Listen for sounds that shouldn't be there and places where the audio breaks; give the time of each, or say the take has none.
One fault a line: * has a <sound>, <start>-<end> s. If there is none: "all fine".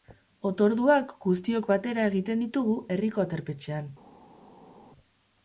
all fine